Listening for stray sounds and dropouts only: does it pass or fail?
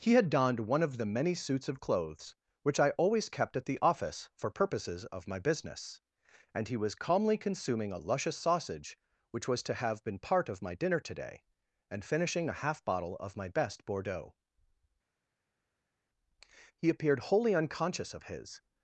pass